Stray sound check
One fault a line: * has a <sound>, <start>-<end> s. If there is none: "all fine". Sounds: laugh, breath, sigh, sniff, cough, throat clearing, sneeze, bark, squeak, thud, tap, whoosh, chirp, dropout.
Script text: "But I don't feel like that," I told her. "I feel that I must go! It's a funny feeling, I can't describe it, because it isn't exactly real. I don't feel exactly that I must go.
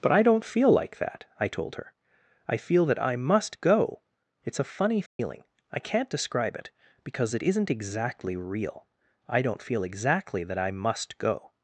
* has a dropout, 5.1-5.2 s